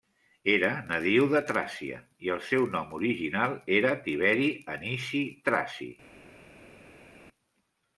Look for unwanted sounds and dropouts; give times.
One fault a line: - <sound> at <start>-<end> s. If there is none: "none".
none